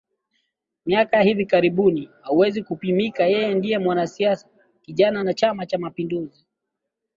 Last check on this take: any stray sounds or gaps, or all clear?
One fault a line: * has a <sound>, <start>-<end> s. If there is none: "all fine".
all fine